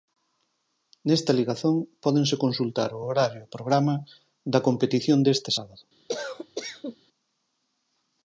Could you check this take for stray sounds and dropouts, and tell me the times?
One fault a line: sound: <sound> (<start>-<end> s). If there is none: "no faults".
sound: cough (6.1-7.0 s)